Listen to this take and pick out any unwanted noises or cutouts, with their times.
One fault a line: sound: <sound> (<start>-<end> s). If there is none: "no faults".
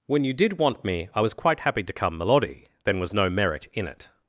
no faults